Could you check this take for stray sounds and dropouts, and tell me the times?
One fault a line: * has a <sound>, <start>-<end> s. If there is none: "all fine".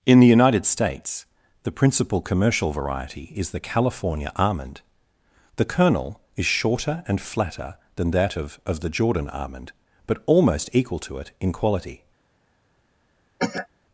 * has a cough, 13.4-13.7 s